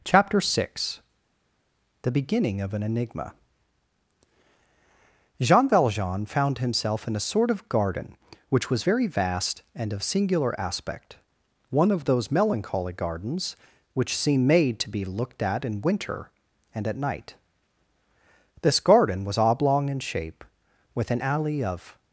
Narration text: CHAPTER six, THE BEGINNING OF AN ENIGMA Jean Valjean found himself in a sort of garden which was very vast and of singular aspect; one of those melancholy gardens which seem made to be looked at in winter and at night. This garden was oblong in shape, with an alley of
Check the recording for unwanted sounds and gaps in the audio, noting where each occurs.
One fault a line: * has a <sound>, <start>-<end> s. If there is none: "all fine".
all fine